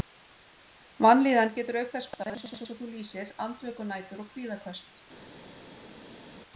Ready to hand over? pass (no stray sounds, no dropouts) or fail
pass